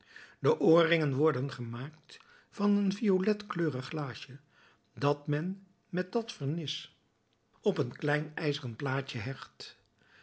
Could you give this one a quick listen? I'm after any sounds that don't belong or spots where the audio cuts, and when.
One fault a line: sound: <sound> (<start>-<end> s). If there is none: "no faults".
no faults